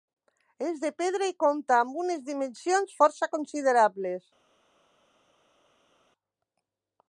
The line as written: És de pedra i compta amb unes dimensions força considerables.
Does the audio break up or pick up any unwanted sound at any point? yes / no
no